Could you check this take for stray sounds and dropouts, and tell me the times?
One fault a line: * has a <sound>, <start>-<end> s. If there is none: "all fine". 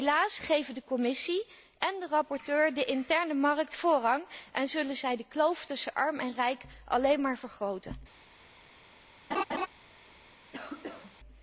* has a laugh, 9.3-9.7 s
* has a cough, 10.5-11.2 s